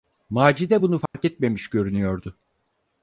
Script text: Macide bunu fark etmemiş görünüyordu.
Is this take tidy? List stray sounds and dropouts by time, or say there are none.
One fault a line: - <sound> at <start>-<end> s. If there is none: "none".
- dropout at 1.1-1.1 s